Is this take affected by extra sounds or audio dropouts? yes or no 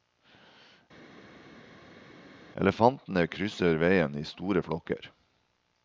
no